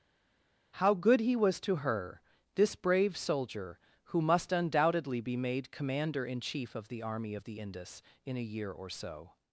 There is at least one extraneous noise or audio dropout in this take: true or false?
false